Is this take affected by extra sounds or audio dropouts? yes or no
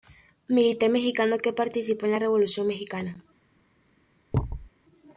yes